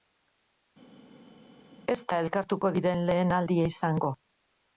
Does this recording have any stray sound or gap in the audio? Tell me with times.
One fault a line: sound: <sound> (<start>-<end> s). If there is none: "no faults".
no faults